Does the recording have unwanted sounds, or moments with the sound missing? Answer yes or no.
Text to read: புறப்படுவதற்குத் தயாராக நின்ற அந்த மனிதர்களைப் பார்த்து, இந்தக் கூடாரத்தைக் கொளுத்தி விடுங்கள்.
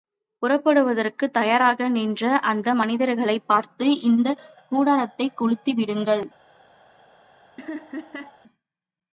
yes